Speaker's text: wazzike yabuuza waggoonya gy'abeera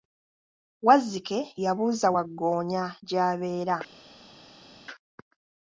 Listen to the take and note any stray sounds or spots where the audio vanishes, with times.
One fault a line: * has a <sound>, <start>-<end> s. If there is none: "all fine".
all fine